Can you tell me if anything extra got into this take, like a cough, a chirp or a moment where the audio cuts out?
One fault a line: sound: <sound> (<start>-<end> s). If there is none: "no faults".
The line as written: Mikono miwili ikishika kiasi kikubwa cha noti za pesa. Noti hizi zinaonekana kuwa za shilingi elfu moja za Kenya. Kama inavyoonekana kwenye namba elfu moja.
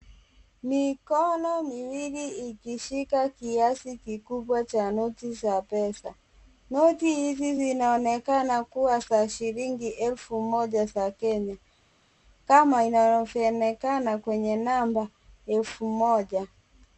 no faults